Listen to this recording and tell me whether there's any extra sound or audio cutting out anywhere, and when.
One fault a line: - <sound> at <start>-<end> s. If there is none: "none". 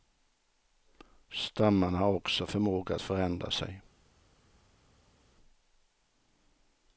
none